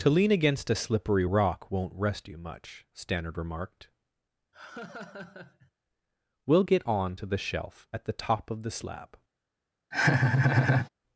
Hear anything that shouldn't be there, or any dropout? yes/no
yes